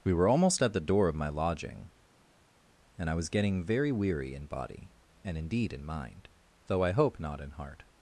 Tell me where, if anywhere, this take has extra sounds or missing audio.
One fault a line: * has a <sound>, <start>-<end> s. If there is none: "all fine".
all fine